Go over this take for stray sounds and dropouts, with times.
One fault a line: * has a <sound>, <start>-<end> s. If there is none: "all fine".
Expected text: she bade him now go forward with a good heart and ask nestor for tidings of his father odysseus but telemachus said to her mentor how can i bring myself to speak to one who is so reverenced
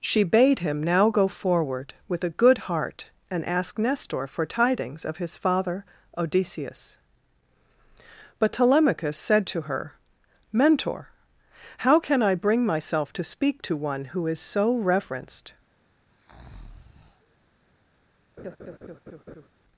* has a breath, 16.1-17.4 s
* has a laugh, 18.4-19.5 s